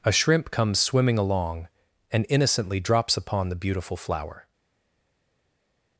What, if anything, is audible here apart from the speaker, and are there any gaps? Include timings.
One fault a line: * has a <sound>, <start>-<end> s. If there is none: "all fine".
all fine